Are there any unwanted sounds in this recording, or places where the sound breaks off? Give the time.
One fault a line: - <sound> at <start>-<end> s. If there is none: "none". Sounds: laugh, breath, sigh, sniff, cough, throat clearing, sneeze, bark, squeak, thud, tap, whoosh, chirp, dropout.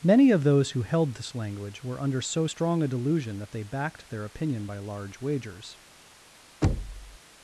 - thud at 6.6-7.2 s